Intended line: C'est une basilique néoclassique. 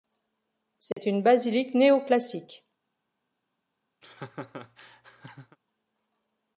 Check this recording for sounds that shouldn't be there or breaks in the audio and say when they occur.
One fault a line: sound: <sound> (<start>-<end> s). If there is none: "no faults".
sound: dropout (0.9-1.0 s)
sound: laugh (4.0-5.6 s)